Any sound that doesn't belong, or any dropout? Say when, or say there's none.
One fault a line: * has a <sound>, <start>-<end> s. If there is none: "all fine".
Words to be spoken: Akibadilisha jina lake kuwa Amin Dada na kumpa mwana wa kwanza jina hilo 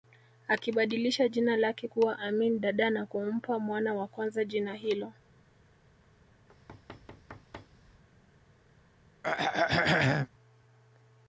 * has a thud, 6.5-8.0 s
* has a throat clearing, 9.2-10.3 s